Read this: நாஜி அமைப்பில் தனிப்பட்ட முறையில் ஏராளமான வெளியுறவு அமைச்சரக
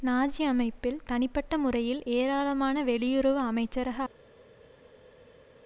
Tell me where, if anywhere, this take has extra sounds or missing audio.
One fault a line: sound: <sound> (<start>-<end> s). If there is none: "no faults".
no faults